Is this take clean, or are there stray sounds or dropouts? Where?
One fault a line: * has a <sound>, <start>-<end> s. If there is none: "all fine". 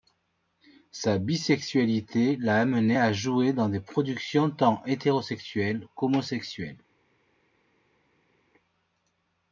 all fine